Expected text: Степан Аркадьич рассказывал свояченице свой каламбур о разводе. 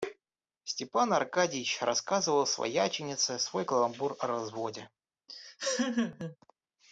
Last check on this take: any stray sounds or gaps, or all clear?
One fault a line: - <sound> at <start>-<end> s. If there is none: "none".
- laugh at 5.3-6.4 s